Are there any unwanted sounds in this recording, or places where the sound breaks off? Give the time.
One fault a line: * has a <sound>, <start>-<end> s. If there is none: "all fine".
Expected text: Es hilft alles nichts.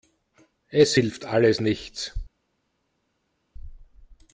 all fine